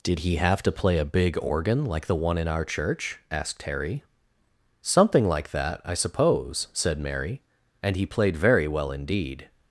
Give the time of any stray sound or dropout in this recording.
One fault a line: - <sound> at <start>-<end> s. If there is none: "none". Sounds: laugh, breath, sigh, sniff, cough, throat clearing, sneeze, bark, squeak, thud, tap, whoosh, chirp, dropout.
none